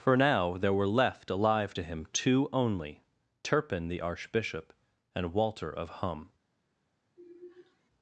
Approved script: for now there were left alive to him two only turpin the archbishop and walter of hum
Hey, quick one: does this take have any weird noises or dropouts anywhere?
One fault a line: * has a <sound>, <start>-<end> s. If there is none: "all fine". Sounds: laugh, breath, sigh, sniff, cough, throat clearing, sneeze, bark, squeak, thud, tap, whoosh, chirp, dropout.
* has a sigh, 7.2-7.9 s